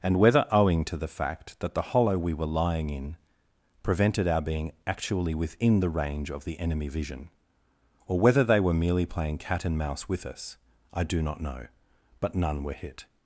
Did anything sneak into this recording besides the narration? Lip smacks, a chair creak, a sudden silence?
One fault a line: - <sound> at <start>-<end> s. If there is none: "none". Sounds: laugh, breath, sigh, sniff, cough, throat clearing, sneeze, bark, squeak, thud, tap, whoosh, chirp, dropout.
none